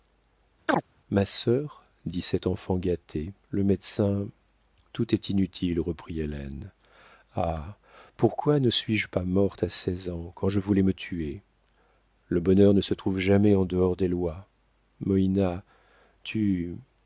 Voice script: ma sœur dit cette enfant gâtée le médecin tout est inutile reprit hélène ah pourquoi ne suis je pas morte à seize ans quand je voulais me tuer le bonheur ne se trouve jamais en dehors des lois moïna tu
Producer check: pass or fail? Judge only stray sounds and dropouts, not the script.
fail